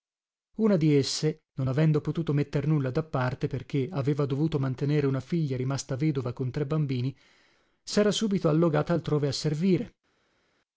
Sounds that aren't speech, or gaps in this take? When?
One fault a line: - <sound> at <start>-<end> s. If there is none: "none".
none